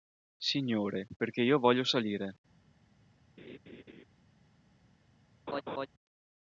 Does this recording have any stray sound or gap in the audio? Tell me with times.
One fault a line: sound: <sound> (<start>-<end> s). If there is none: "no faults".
sound: laugh (3.4-4.0 s)
sound: laugh (5.5-5.9 s)